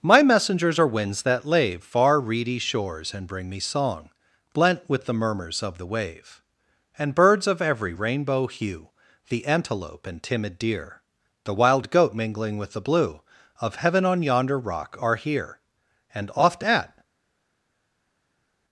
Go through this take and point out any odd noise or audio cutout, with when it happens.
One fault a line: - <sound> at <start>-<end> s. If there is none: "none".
none